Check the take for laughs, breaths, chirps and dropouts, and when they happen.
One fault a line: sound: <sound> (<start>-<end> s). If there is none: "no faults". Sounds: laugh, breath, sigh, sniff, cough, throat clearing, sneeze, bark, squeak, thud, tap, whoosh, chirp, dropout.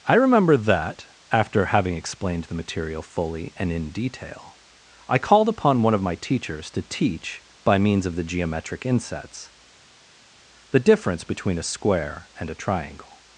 no faults